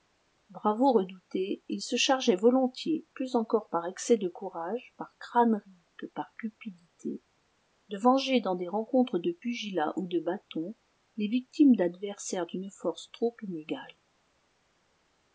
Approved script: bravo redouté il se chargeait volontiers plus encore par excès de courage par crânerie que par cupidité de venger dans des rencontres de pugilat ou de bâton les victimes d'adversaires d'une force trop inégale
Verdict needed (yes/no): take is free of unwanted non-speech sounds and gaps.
yes